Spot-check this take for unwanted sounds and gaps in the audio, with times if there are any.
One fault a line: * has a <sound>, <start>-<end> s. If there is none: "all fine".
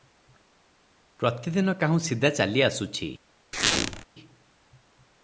* has a squeak, 3.5-4.0 s